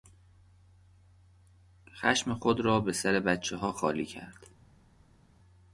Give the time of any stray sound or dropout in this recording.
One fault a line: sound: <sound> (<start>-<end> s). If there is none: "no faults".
no faults